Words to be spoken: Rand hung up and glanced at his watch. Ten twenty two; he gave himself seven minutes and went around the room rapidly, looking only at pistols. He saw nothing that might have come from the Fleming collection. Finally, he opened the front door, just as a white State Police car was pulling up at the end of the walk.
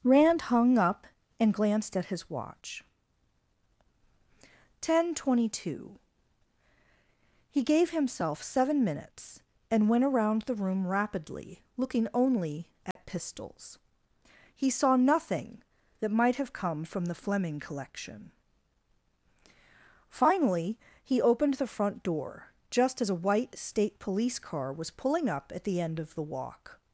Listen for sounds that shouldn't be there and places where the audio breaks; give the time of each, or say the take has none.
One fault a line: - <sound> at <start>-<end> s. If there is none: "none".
- dropout at 12.9-13.0 s